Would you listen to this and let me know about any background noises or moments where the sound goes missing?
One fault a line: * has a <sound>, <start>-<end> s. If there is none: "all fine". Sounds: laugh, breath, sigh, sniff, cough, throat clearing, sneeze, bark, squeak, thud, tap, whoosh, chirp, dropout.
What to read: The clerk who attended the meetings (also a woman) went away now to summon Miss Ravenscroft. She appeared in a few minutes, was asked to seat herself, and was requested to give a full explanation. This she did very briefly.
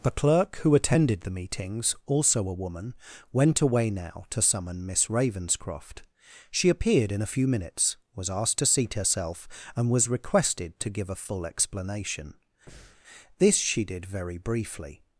* has a breath, 12.7-13.0 s